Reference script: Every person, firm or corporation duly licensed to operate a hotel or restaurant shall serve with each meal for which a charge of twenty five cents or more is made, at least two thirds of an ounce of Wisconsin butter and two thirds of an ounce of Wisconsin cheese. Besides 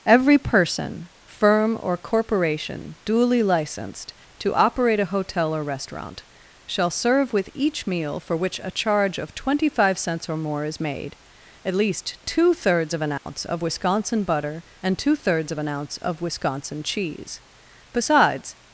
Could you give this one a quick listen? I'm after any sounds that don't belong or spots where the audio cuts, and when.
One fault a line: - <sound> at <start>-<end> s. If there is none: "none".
- dropout at 13.2-13.3 s